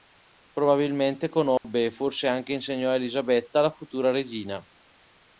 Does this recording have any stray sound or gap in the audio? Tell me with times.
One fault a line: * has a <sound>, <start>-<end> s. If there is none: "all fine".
* has a dropout, 1.6-1.6 s